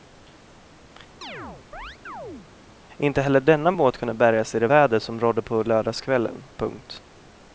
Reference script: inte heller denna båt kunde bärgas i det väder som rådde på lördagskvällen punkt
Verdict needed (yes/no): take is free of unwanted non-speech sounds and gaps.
no